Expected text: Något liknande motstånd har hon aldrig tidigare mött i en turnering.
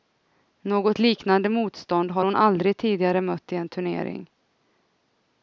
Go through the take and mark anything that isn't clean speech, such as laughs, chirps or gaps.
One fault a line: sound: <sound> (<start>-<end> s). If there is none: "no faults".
no faults